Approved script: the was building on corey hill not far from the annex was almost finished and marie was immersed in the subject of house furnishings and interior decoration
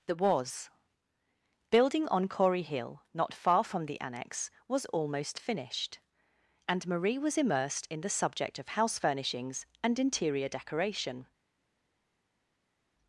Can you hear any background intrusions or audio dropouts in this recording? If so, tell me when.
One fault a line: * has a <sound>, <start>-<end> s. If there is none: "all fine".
all fine